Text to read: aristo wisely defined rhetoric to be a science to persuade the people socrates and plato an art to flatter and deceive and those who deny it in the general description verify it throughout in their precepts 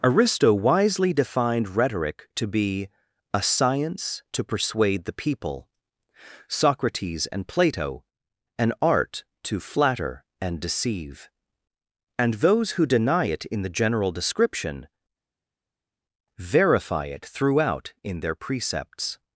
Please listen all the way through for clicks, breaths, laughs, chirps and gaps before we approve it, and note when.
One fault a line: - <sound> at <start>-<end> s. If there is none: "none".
none